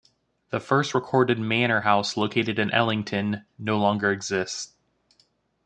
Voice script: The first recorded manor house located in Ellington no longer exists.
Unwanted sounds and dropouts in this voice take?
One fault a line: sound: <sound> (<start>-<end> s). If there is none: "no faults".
no faults